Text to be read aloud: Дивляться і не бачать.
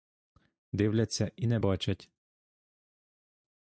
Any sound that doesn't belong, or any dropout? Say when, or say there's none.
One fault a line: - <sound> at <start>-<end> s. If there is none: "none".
none